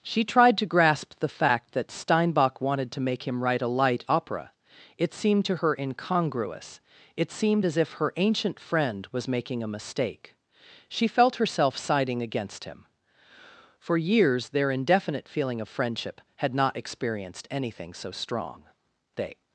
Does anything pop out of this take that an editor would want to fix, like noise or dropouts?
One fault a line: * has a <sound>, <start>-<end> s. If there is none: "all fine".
all fine